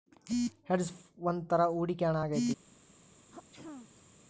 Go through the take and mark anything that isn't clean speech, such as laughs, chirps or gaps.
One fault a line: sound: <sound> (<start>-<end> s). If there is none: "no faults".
sound: throat clearing (3.3-4.3 s)